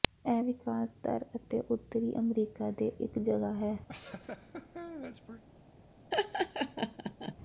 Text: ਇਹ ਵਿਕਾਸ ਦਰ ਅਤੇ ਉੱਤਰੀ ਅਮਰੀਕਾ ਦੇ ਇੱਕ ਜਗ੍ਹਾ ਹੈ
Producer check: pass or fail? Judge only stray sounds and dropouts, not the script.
fail